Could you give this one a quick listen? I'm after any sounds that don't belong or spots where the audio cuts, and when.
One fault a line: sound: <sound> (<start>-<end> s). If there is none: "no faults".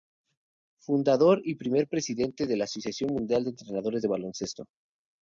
no faults